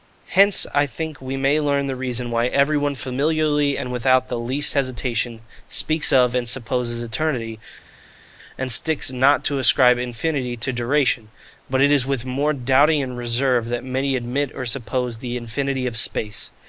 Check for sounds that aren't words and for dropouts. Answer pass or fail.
pass